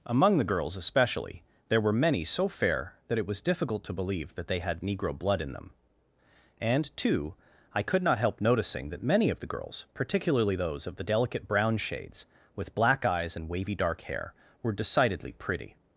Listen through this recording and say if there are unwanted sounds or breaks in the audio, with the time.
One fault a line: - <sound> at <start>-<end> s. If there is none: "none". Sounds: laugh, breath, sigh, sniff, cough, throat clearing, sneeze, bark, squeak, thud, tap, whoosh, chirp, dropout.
none